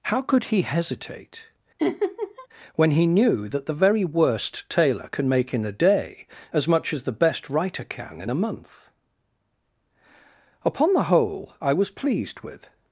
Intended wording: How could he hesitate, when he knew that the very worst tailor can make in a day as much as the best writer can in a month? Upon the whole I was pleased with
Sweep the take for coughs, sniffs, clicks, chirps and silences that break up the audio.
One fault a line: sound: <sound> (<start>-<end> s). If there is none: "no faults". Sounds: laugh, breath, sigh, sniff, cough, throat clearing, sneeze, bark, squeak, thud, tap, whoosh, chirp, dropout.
sound: laugh (1.8-2.5 s)